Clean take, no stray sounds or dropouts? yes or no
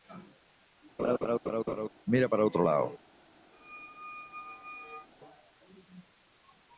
no